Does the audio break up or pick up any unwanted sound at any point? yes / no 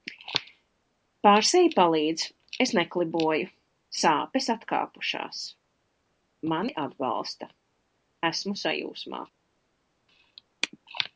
no